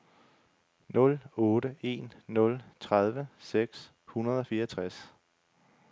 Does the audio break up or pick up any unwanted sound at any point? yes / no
no